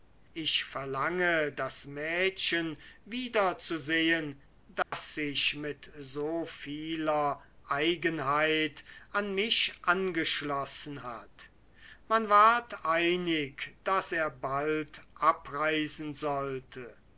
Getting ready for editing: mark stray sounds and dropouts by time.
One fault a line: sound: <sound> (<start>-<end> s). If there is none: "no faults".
sound: dropout (4.8-4.9 s)